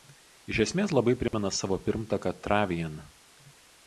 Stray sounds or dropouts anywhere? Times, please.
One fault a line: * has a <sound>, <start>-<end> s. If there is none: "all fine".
* has a dropout, 1.3-1.3 s